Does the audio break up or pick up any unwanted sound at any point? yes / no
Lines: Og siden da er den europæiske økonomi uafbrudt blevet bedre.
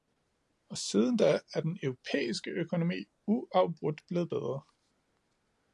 no